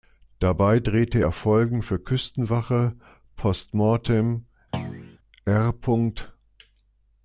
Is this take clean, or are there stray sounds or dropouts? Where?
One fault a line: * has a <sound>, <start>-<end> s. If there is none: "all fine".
* has a thud, 4.7-5.2 s